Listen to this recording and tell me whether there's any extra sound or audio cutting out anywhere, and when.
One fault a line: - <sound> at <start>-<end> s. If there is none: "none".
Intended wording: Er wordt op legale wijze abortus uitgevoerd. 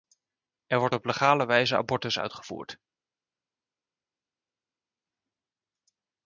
none